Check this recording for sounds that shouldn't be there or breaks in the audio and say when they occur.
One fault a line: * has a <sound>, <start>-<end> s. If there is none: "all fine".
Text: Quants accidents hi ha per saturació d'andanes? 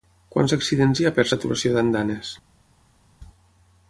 all fine